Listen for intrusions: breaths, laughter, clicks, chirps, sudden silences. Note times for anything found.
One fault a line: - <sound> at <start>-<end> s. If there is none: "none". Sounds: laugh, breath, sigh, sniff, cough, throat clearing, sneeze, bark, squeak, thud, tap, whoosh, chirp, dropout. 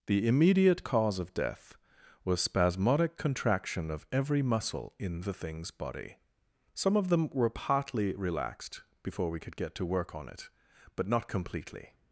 none